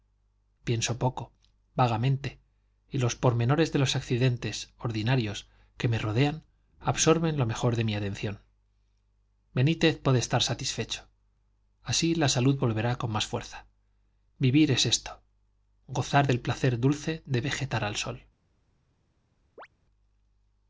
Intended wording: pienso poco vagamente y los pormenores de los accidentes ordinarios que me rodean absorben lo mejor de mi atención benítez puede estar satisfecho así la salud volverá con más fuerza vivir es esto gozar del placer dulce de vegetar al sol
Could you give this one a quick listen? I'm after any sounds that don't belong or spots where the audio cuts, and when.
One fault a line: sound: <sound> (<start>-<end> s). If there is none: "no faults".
sound: chirp (19.6-19.7 s)